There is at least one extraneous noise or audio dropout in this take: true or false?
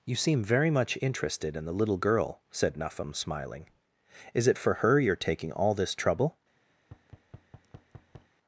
true